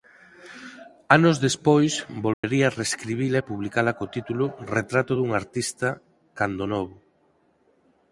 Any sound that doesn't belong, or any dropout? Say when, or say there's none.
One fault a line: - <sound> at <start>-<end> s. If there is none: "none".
- dropout at 2.3-2.4 s